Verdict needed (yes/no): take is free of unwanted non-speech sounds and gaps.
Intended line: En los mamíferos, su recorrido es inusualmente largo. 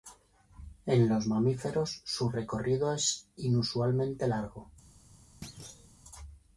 no